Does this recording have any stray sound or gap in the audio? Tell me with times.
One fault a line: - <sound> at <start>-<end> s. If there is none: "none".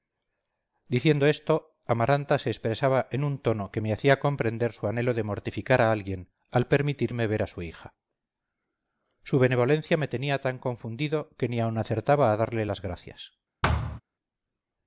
- thud at 13.6-14.0 s